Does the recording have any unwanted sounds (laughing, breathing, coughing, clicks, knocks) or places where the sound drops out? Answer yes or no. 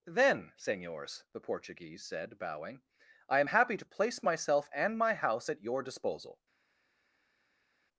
no